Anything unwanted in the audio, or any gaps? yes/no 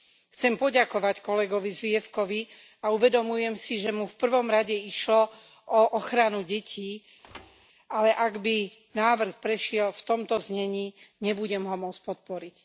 yes